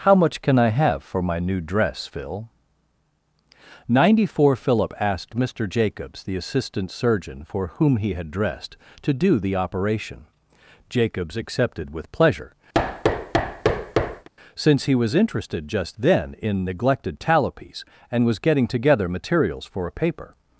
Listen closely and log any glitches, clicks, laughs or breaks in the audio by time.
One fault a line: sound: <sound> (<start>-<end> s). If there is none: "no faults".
sound: thud (12.7-14.3 s)